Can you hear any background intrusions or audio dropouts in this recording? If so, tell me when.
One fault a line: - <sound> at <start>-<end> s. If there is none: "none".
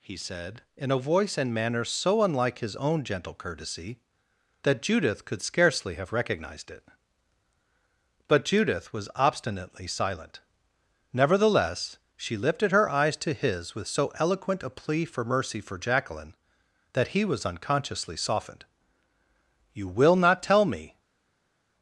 none